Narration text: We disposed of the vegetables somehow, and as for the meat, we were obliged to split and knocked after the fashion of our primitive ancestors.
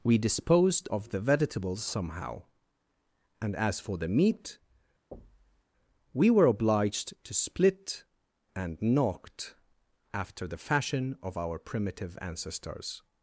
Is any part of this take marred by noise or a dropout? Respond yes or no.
yes